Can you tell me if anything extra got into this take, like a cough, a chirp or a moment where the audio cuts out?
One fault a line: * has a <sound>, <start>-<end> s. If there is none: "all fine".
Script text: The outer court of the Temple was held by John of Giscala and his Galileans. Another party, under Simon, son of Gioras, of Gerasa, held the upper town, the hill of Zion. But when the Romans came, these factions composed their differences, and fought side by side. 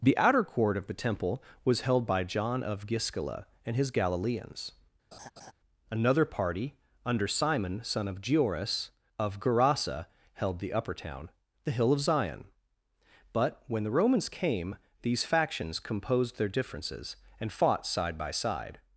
* has a laugh, 5.1-5.5 s